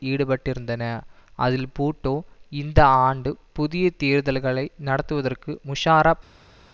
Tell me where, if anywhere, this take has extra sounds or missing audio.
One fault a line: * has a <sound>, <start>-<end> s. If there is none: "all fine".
all fine